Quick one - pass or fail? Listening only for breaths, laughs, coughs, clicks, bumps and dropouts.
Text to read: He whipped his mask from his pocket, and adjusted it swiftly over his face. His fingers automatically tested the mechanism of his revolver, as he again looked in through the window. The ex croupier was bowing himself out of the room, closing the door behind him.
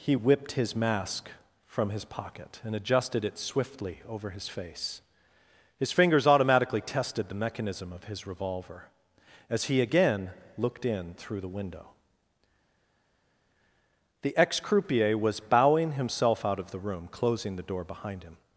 pass